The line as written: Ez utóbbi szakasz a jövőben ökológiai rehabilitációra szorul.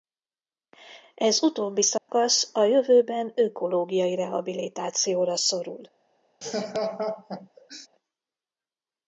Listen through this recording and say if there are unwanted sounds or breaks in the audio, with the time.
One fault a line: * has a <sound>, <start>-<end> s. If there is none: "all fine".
* has a dropout, 2.0-2.1 s
* has a laugh, 6.4-7.9 s